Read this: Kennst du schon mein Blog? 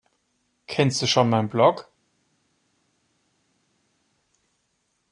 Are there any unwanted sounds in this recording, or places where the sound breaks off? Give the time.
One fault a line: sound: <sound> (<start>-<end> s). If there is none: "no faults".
no faults